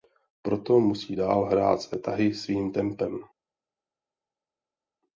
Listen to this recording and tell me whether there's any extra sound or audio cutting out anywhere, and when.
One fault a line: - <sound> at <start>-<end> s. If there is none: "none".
none